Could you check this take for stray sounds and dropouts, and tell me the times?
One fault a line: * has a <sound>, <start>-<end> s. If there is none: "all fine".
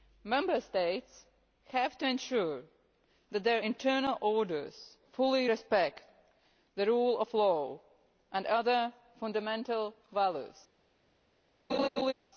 * has a laugh, 11.7-12.1 s